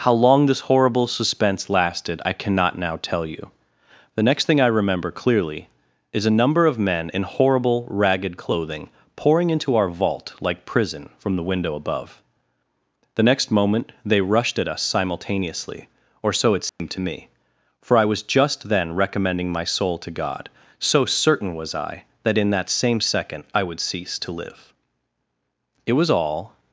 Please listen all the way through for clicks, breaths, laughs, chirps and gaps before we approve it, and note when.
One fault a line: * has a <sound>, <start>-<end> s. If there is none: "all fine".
* has a dropout, 16.7-16.8 s